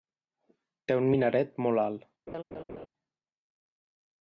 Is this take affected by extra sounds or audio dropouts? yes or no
yes